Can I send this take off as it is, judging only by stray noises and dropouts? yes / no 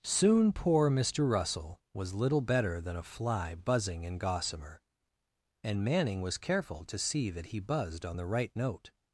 yes